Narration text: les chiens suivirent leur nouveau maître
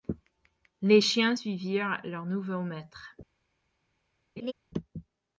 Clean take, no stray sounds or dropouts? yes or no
no